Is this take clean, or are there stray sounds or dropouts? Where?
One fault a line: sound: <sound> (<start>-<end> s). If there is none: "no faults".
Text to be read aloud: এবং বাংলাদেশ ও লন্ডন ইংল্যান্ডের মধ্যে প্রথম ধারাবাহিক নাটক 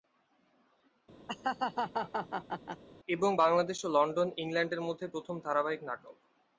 sound: laugh (1.3-2.8 s)